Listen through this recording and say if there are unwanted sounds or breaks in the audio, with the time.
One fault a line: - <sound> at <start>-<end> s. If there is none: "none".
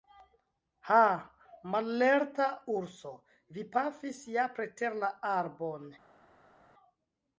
none